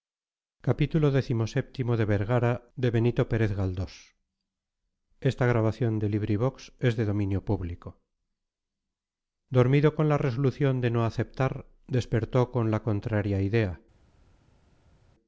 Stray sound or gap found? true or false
false